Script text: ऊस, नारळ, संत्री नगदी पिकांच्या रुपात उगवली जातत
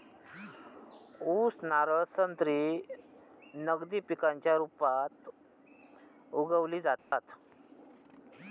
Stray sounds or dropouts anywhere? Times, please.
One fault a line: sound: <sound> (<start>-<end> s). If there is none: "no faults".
sound: dropout (7.0-7.1 s)